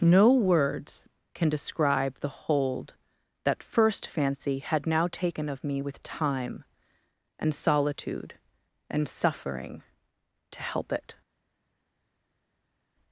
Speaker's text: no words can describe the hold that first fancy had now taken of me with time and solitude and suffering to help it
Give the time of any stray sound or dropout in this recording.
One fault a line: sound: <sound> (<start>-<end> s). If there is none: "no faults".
no faults